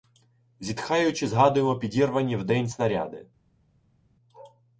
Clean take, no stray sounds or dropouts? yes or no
yes